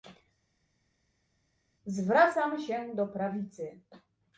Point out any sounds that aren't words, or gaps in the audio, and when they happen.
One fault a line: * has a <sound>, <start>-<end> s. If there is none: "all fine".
all fine